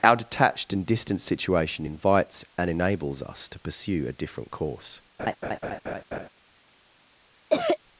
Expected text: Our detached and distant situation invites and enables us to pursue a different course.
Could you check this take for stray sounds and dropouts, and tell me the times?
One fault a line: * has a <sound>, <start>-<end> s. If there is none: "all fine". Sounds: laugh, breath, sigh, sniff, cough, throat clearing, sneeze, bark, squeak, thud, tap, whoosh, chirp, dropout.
* has a laugh, 5.2-6.3 s
* has a cough, 7.5-7.8 s